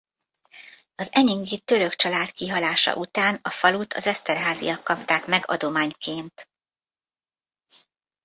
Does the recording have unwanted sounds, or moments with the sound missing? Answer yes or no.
no